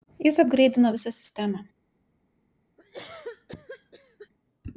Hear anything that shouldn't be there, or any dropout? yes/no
yes